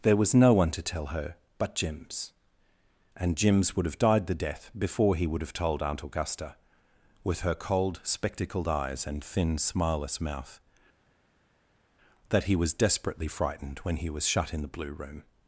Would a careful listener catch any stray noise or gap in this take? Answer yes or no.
no